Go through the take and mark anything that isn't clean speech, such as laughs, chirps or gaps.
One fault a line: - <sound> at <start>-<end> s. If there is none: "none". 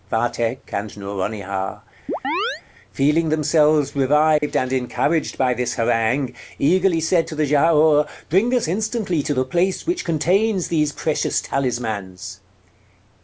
- chirp at 2.1-2.6 s
- dropout at 4.4-4.4 s